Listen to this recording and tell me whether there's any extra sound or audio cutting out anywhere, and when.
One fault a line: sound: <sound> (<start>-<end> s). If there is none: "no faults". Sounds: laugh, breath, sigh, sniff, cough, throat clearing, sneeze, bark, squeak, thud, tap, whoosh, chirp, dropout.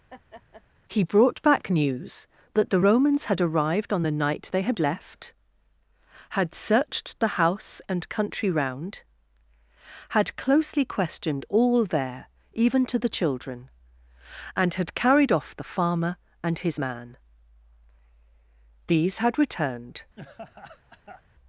sound: laugh (0.1-0.6 s)
sound: laugh (20.2-21.2 s)